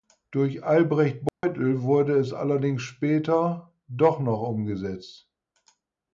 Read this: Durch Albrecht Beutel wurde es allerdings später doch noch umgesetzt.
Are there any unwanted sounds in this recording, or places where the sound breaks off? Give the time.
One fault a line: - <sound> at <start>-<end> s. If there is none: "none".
- dropout at 1.3-1.4 s